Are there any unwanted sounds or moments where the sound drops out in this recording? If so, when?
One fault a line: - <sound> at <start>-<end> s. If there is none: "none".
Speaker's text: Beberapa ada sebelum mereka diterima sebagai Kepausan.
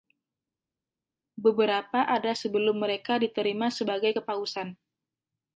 none